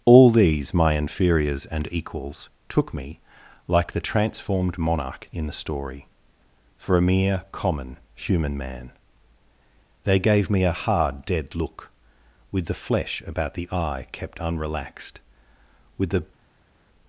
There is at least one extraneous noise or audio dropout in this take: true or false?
false